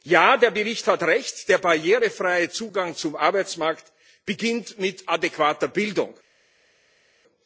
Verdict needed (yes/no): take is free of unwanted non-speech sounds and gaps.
yes